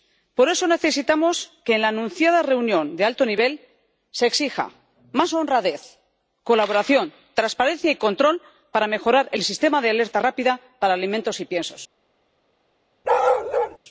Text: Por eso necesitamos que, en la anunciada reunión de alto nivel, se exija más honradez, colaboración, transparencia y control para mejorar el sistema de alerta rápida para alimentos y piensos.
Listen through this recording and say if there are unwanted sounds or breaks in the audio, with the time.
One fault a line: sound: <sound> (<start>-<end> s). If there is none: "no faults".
sound: bark (13.0-13.8 s)